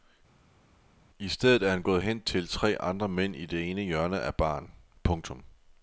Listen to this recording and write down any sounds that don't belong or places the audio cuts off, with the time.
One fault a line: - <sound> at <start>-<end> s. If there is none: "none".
none